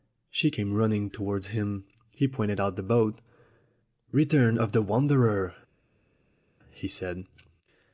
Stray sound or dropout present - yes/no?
no